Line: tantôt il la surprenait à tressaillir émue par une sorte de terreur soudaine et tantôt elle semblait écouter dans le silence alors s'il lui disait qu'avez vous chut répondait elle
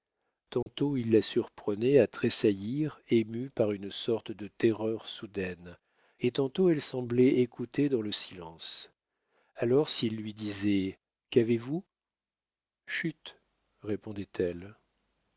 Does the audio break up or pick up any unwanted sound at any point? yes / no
yes